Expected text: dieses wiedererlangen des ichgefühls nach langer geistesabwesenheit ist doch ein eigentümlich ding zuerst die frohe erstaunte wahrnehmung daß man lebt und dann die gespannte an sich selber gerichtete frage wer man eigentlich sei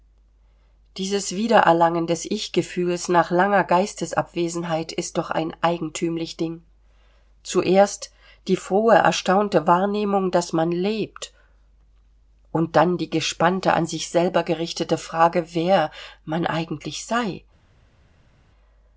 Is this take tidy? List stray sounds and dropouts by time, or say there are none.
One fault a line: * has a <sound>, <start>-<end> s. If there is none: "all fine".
all fine